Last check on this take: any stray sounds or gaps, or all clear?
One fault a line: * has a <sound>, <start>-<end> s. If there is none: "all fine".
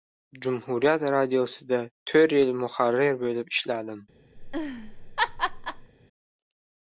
* has a laugh, 4.4-5.9 s